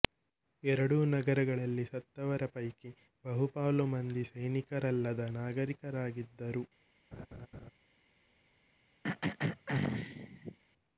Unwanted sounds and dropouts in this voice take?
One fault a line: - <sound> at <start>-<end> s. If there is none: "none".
- laugh at 7.1-7.7 s
- throat clearing at 9.0-10.6 s